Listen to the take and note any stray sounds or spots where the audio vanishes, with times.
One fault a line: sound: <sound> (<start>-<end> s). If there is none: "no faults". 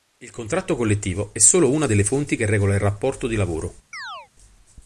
sound: chirp (3.9-4.3 s)